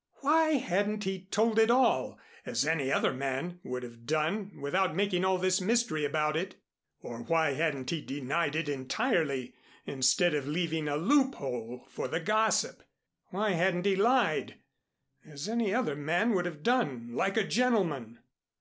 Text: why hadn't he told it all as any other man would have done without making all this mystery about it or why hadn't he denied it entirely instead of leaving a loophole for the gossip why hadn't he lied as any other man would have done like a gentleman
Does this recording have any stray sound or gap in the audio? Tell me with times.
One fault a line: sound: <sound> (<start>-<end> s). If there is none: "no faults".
no faults